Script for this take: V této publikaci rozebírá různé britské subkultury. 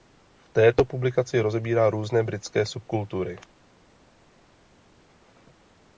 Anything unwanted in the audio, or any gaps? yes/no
no